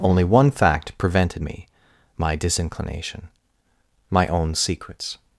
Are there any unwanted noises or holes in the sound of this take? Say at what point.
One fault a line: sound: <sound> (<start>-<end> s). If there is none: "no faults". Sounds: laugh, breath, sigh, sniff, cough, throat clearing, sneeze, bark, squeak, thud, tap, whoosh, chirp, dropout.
no faults